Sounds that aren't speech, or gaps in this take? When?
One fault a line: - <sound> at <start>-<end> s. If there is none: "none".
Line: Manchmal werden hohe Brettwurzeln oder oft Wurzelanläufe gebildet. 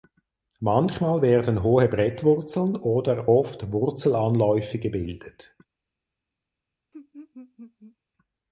- laugh at 6.9-8.0 s